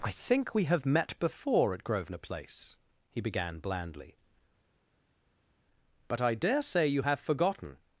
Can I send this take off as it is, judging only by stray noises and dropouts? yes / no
yes